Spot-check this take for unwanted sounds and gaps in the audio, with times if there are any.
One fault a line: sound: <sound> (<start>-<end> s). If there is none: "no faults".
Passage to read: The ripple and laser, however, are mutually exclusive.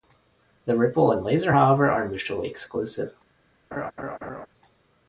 sound: laugh (3.7-4.5 s)